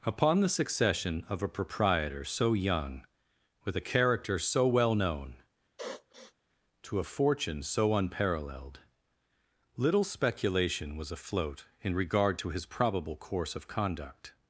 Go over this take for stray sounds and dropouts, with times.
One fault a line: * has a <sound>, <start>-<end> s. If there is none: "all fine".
* has a sniff, 5.8-6.3 s